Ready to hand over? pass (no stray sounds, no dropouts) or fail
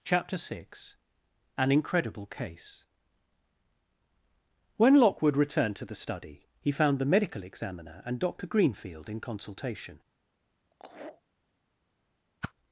fail